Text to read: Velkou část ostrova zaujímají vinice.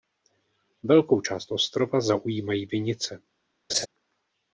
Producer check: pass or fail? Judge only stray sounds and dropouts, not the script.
fail